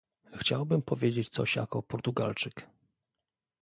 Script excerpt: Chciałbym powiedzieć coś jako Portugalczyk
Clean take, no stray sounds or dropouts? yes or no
yes